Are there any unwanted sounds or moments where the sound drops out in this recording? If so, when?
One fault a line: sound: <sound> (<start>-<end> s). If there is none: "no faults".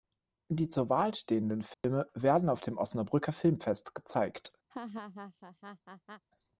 sound: dropout (1.7-1.8 s)
sound: laugh (4.7-6.2 s)